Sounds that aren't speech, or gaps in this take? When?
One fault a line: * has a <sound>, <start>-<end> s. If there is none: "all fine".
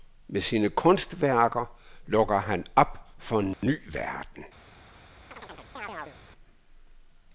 * has a dropout, 3.5-3.6 s
* has a chirp, 5.3-6.2 s